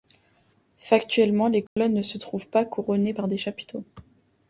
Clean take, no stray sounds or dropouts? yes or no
no